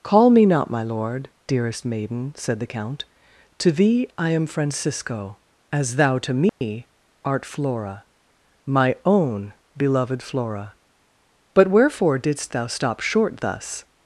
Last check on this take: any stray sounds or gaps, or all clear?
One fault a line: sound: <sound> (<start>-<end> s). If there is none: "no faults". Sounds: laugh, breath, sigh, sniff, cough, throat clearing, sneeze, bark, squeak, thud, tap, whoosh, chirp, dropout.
sound: dropout (6.5-6.6 s)